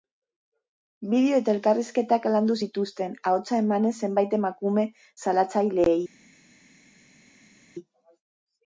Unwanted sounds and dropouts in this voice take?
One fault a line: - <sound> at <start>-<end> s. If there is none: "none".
none